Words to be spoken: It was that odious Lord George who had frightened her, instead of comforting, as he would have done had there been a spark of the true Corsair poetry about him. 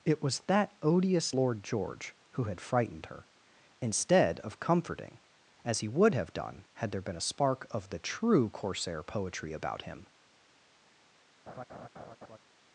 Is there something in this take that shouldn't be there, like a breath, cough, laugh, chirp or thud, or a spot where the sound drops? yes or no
yes